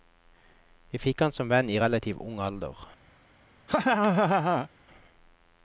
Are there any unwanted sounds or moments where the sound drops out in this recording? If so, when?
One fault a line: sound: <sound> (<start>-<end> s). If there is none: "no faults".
sound: laugh (3.7-4.7 s)